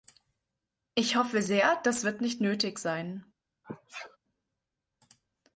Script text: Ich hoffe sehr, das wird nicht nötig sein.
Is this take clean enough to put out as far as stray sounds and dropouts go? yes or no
no